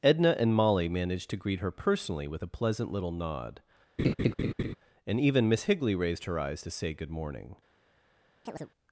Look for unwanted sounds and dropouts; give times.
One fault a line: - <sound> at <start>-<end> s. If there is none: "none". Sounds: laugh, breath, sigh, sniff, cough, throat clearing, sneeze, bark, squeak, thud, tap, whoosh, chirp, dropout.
- laugh at 4.0-4.8 s
- chirp at 8.5-8.7 s